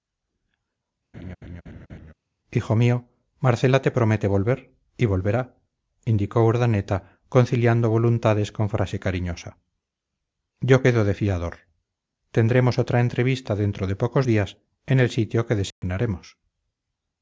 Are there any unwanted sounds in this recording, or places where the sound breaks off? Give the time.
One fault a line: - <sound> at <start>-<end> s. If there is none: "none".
- laugh at 1.1-2.1 s
- dropout at 15.7-15.8 s